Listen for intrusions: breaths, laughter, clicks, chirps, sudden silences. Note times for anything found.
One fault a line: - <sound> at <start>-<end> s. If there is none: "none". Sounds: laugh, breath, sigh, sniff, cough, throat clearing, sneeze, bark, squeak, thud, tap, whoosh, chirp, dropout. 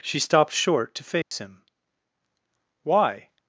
- dropout at 1.2-1.3 s